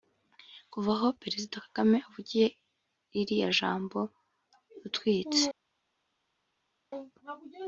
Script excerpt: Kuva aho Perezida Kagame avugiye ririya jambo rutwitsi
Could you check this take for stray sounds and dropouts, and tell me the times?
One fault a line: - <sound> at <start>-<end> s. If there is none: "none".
none